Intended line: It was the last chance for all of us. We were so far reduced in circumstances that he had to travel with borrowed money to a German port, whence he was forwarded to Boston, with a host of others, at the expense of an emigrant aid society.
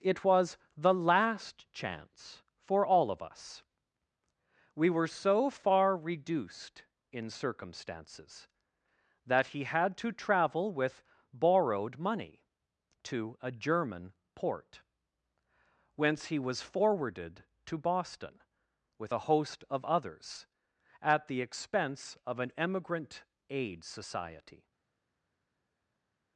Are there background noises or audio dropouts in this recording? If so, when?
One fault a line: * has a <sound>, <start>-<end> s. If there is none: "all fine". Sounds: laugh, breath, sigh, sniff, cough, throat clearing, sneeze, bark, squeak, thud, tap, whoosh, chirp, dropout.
all fine